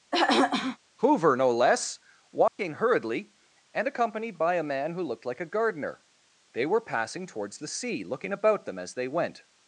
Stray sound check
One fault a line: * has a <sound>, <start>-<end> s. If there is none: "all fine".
* has a throat clearing, 0.1-0.8 s
* has a dropout, 2.5-2.6 s